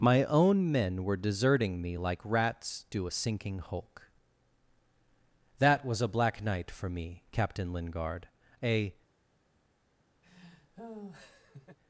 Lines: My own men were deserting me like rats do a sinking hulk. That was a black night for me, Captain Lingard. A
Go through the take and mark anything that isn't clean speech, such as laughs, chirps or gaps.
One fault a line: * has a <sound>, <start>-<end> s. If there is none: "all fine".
* has a laugh, 10.2-11.8 s